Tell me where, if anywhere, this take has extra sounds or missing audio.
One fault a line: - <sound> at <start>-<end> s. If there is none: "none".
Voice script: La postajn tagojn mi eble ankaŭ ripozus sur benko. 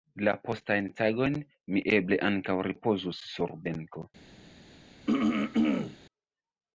- throat clearing at 5.1-6.0 s